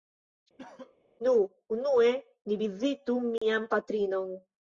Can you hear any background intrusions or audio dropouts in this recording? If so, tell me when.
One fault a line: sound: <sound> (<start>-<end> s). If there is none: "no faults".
sound: cough (0.6-1.0 s)
sound: dropout (3.4-3.4 s)